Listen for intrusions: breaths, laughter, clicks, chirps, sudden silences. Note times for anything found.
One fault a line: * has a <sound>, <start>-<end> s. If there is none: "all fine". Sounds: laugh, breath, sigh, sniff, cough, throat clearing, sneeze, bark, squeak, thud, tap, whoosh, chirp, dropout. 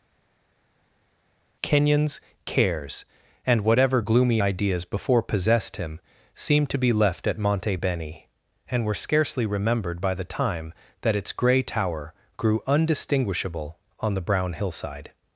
all fine